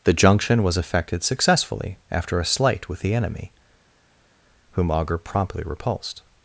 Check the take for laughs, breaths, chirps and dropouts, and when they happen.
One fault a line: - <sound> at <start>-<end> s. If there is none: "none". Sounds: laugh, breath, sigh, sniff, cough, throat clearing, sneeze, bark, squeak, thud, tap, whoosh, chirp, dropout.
none